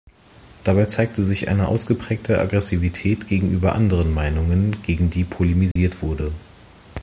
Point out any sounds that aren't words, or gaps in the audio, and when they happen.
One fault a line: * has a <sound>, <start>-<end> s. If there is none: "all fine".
* has a dropout, 5.7-5.8 s